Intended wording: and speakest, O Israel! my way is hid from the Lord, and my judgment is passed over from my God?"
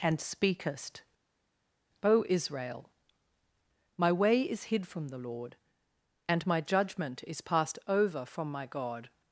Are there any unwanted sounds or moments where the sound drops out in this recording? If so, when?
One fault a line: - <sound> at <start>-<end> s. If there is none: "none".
none